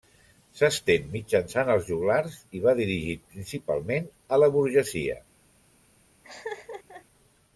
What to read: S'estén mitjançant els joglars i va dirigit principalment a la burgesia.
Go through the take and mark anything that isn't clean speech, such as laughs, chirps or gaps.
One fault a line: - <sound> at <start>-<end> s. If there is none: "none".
- laugh at 6.2-7.0 s